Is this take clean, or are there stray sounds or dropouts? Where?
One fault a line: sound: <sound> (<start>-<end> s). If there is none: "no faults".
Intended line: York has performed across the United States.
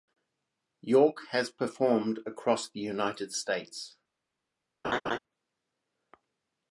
sound: laugh (4.8-5.2 s)